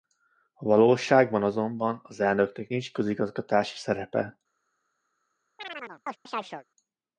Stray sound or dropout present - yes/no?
yes